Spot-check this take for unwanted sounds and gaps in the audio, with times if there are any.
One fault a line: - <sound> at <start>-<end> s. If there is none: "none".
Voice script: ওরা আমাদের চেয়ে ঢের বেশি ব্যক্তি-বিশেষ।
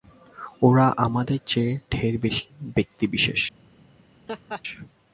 - laugh at 4.3-4.6 s